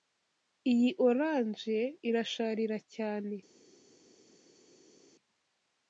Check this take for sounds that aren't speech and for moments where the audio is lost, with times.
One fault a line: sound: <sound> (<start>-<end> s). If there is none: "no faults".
no faults